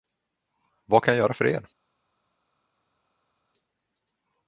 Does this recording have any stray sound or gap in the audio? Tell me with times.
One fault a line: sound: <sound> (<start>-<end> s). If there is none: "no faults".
no faults